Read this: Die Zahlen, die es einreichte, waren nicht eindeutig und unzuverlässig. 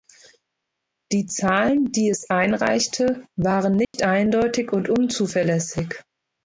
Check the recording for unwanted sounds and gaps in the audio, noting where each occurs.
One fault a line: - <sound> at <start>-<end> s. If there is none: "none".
- dropout at 3.8-3.9 s